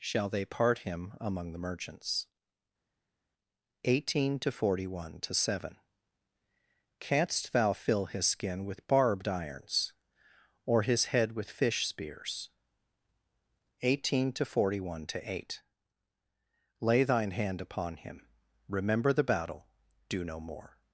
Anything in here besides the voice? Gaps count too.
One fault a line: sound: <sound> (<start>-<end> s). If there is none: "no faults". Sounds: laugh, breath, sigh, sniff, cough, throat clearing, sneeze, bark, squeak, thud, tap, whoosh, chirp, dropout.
no faults